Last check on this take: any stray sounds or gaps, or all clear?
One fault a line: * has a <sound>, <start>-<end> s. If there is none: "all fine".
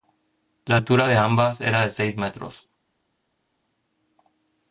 all fine